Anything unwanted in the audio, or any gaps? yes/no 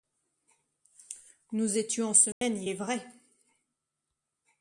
yes